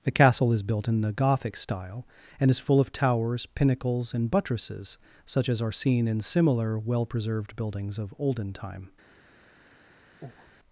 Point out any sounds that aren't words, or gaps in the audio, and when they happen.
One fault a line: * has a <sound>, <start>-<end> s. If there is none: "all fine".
* has a breath, 10.2-10.5 s